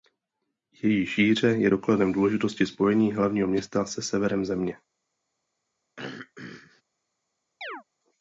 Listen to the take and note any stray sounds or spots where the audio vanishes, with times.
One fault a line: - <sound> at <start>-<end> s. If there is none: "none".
- throat clearing at 6.0-6.8 s
- chirp at 7.6-7.8 s